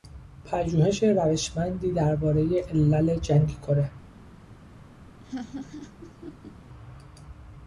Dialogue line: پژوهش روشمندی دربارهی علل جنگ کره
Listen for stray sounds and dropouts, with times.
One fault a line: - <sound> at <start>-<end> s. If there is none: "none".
- laugh at 5.2-6.5 s